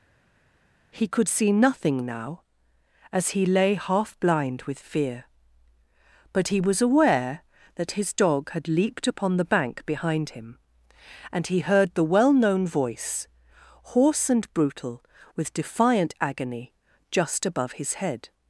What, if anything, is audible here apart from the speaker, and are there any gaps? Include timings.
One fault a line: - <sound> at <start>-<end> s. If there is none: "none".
none